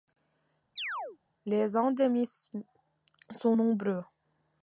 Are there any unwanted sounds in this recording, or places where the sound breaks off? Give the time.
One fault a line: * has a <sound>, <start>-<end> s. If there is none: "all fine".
* has a chirp, 0.8-1.2 s